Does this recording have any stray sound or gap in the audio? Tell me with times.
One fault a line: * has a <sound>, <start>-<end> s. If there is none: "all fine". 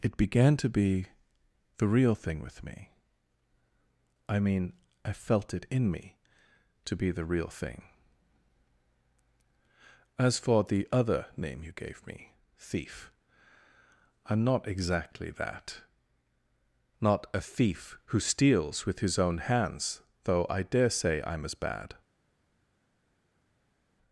all fine